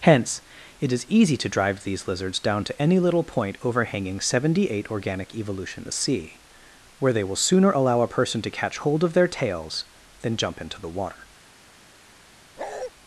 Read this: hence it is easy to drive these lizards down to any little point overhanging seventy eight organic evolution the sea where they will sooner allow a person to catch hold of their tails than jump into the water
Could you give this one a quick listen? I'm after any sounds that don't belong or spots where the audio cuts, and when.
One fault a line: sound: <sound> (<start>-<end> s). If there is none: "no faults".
sound: bark (12.6-12.9 s)